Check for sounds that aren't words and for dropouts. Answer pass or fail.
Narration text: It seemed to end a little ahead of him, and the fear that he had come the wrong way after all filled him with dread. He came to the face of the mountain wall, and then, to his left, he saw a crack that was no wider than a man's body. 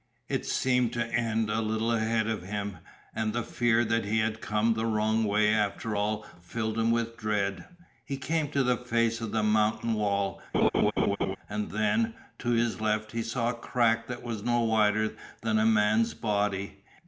fail